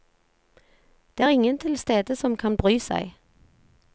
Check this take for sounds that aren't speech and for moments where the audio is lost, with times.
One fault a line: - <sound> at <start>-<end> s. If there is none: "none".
none